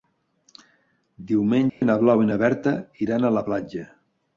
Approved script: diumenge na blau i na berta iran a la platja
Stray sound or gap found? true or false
true